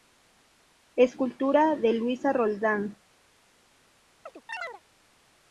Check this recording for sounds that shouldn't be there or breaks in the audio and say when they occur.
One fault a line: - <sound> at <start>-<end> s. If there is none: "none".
- chirp at 4.3-4.8 s